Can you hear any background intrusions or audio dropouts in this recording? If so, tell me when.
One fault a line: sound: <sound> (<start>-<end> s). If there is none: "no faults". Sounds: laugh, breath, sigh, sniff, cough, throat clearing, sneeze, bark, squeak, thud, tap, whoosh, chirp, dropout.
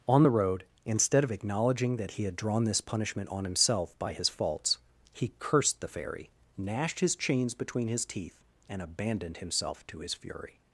no faults